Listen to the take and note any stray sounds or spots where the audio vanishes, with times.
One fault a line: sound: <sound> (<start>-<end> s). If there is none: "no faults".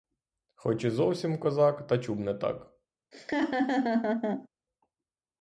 sound: laugh (3.1-4.5 s)